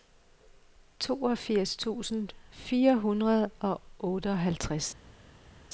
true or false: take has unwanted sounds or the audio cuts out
false